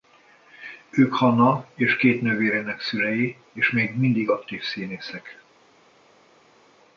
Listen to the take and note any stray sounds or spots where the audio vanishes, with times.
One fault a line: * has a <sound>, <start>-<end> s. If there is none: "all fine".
all fine